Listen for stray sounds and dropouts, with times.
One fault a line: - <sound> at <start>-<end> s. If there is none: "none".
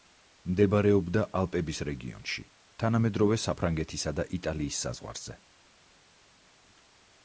none